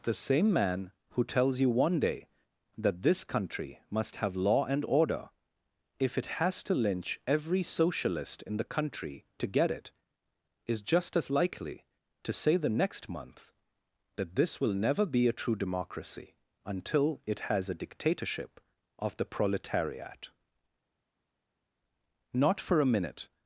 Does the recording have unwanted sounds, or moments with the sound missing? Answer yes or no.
no